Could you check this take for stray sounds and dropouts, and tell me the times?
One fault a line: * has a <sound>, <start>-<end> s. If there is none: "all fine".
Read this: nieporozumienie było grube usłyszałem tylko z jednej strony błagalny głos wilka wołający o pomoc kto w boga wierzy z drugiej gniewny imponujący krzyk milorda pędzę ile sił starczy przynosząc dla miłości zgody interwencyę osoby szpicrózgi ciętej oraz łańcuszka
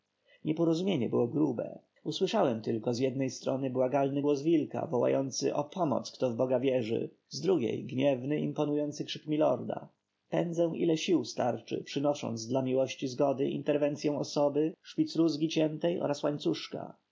all fine